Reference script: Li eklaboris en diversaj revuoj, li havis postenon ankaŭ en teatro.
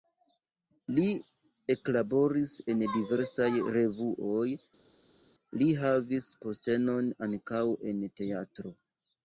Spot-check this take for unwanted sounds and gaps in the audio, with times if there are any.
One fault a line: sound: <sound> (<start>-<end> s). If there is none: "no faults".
no faults